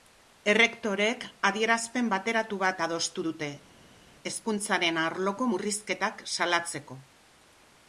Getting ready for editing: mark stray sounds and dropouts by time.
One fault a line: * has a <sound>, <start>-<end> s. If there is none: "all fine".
all fine